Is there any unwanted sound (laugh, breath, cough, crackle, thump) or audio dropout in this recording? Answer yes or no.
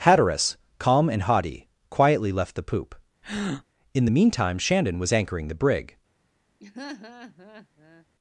yes